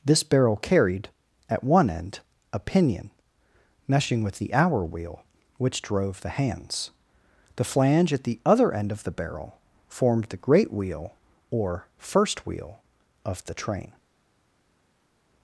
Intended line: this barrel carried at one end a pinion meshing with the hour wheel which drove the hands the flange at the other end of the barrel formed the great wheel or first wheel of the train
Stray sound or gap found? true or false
false